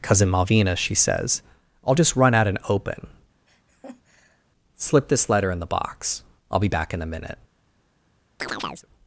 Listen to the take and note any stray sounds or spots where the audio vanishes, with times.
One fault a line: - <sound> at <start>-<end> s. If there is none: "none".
- laugh at 3.5-4.4 s
- chirp at 8.4-8.9 s